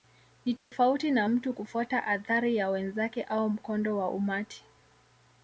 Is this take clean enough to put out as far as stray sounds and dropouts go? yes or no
no